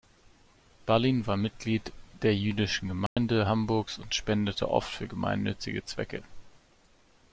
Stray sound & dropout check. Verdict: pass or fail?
fail